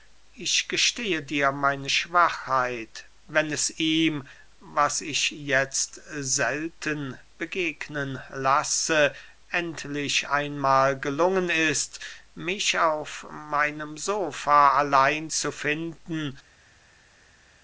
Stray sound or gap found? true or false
false